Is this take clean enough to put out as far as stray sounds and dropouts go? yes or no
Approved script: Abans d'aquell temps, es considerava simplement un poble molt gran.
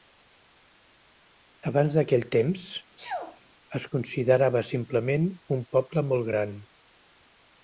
no